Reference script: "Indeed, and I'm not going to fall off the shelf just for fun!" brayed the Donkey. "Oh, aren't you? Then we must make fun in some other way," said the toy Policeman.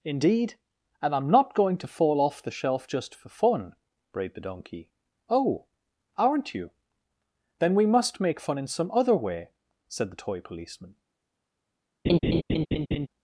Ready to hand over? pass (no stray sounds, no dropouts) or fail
fail